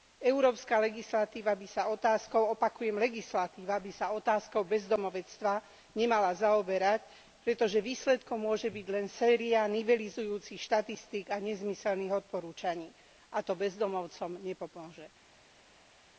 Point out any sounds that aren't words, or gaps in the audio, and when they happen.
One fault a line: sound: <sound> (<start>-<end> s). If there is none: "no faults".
no faults